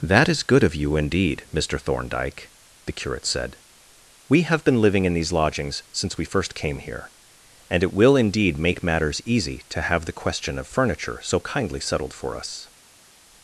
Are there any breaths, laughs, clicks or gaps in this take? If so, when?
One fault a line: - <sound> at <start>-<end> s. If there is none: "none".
none